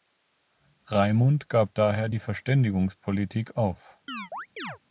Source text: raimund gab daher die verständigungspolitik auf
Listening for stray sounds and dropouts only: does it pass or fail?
fail